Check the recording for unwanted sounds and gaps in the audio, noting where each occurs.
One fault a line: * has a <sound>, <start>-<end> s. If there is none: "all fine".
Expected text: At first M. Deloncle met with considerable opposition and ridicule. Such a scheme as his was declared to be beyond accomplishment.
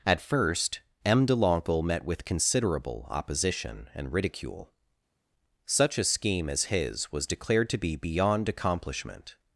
all fine